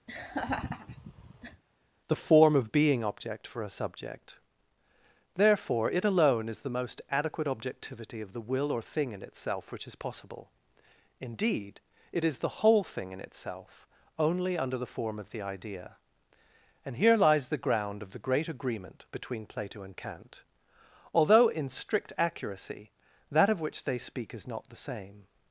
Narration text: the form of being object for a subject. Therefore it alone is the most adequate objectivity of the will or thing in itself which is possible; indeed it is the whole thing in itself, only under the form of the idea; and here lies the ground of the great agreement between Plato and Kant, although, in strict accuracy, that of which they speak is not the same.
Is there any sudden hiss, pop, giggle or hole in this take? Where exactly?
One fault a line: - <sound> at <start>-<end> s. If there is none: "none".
- laugh at 0.1-1.6 s